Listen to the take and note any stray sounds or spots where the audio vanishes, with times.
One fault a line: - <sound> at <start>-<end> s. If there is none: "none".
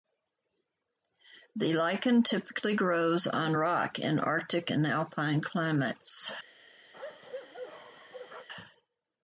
- bark at 6.9-8.5 s